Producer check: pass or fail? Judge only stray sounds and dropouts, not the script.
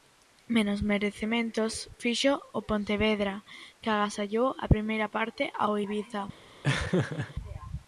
fail